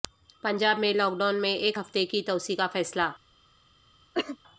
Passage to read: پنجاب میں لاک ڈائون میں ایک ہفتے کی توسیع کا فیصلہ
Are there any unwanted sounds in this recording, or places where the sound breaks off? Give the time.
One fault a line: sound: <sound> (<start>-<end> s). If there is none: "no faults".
sound: cough (4.1-4.4 s)